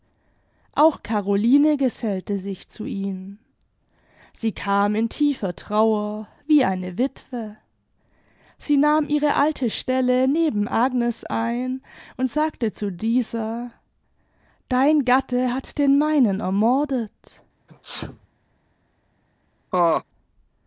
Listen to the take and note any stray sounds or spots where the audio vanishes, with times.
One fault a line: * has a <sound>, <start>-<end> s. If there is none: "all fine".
* has a sneeze, 17.7-18.3 s
* has a laugh, 19.7-20.0 s